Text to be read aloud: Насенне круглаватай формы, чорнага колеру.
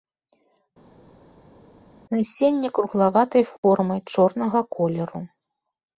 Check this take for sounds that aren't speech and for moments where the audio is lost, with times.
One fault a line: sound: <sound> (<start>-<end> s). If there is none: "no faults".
no faults